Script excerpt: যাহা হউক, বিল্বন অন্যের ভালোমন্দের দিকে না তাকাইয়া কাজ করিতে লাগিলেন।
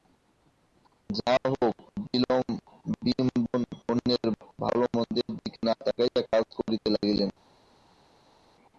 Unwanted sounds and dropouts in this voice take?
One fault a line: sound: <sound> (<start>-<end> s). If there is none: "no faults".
no faults